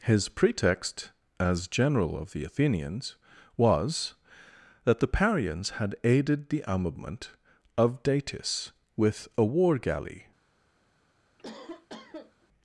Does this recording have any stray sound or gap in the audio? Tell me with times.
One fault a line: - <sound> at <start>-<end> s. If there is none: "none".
- cough at 11.4-12.5 s